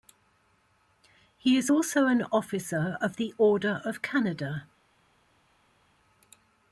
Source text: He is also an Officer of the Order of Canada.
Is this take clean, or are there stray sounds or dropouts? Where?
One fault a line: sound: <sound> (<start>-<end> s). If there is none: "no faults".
no faults